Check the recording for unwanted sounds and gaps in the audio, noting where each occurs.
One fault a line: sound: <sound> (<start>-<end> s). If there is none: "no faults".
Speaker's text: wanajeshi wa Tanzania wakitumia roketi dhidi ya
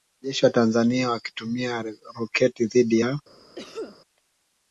sound: cough (3.6-4.0 s)